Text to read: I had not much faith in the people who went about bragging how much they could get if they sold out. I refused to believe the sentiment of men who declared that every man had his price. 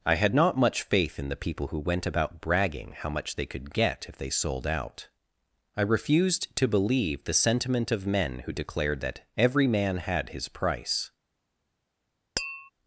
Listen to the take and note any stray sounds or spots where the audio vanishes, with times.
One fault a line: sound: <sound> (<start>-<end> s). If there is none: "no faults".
sound: tap (12.4-12.7 s)